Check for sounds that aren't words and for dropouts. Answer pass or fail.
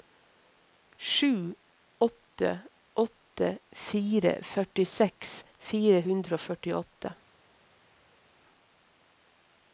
pass